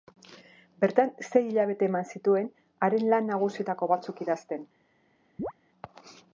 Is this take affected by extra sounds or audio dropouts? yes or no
yes